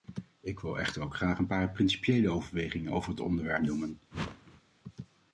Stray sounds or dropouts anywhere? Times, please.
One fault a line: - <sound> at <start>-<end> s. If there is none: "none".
- whoosh at 4.1-4.6 s